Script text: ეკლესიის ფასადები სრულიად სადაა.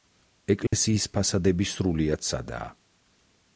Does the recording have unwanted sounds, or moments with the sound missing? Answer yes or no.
yes